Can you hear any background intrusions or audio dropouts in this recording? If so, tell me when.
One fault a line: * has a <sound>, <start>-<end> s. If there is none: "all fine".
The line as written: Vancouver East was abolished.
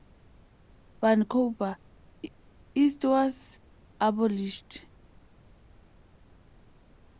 all fine